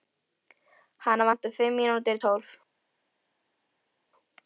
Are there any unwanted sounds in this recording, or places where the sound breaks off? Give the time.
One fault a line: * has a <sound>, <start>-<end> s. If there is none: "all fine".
all fine